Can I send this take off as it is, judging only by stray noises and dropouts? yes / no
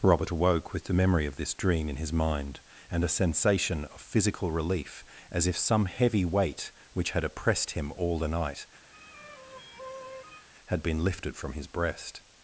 no